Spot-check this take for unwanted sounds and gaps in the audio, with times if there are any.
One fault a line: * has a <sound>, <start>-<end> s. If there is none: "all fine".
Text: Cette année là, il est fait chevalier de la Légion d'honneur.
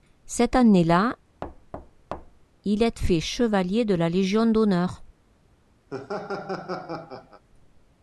* has a thud, 1.4-2.5 s
* has a laugh, 5.9-7.4 s